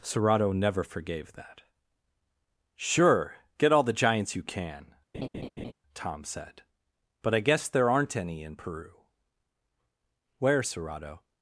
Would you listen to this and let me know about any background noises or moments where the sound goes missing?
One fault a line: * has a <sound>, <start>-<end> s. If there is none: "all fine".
* has a laugh, 5.1-5.7 s